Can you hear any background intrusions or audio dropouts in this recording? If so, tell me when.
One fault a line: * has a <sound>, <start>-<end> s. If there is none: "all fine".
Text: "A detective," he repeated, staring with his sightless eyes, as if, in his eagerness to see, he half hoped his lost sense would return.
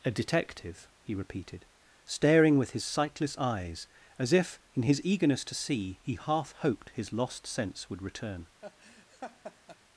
* has a laugh, 8.6-9.8 s